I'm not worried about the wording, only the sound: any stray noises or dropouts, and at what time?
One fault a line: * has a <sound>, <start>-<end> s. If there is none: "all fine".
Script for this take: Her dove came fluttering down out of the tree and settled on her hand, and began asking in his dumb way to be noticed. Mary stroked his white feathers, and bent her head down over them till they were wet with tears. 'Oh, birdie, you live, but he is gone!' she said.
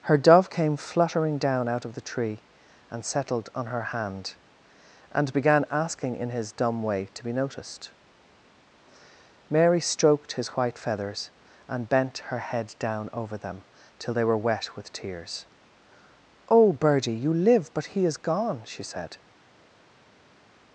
all fine